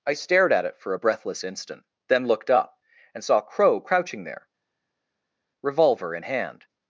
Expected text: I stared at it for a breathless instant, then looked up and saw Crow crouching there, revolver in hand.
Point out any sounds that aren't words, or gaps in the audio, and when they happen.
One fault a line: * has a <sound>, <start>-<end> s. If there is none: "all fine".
all fine